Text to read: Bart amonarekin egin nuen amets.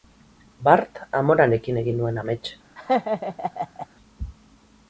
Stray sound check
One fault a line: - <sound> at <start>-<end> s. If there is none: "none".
- laugh at 2.8-3.9 s